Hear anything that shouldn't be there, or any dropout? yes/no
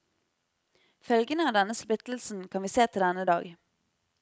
no